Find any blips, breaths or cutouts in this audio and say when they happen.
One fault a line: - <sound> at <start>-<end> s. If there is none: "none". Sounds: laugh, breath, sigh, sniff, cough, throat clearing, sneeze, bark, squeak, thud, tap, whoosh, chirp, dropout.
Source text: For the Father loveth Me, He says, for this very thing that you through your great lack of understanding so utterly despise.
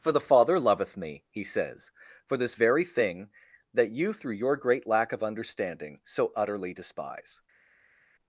none